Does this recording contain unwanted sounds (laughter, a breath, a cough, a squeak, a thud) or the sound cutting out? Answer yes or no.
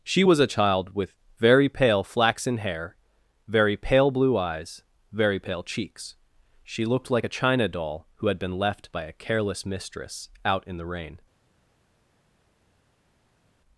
no